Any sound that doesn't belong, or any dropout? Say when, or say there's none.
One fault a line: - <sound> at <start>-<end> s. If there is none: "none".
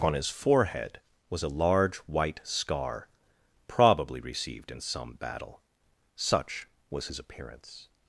none